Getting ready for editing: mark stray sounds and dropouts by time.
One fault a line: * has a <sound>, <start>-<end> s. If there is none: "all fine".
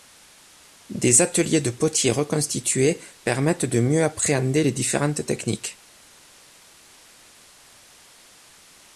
all fine